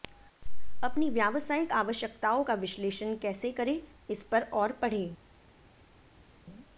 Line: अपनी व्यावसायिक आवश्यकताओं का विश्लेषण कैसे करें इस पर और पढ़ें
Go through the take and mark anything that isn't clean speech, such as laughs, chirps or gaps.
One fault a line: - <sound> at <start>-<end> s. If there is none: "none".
none